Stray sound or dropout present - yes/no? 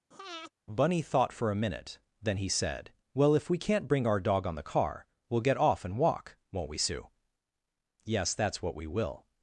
yes